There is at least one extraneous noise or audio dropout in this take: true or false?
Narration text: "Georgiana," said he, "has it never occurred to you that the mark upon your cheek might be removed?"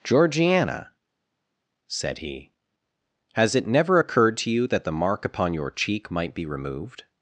false